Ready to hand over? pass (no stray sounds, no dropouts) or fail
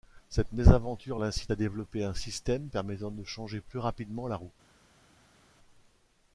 pass